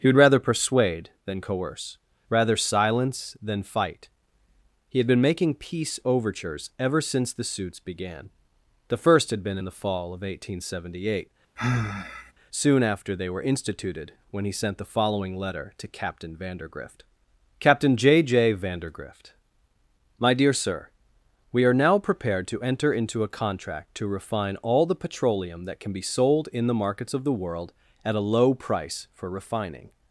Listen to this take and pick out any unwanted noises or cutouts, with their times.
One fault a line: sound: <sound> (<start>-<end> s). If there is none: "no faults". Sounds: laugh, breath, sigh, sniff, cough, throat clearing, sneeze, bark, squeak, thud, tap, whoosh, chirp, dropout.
sound: sigh (11.6-12.3 s)